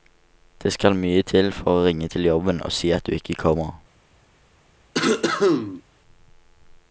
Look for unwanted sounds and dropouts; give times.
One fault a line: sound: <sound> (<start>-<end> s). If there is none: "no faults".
sound: cough (4.9-5.8 s)